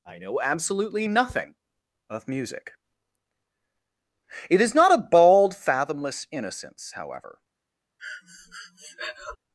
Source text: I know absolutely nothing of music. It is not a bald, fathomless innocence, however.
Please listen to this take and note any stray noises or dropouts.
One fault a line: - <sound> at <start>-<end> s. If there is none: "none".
- breath at 8.0-9.4 s